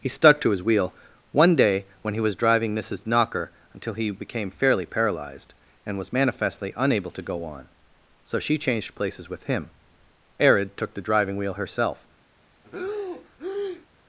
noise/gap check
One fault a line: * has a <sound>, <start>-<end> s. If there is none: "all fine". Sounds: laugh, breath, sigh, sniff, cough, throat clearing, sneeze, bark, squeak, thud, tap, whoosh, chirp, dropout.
* has a breath, 12.6-13.9 s